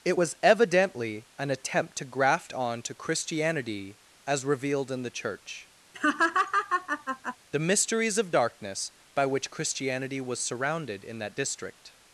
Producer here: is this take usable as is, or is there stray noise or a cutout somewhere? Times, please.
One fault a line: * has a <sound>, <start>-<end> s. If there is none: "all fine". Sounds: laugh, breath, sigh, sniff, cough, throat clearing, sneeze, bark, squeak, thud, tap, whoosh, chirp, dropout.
* has a laugh, 5.9-7.4 s